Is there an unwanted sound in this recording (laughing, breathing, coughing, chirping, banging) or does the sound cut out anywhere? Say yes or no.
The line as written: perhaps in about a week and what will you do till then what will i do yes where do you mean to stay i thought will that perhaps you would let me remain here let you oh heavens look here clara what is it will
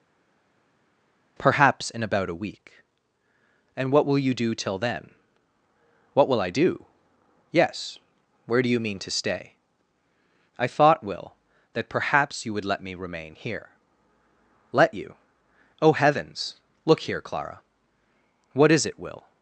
no